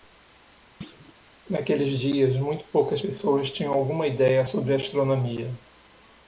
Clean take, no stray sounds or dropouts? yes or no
no